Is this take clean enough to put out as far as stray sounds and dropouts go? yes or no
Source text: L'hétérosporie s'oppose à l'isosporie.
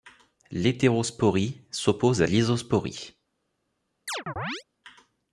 no